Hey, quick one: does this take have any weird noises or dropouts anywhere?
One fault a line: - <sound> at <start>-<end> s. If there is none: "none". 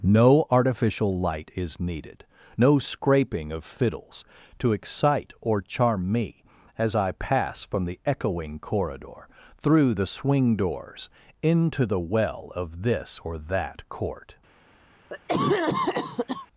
- cough at 15.1-16.5 s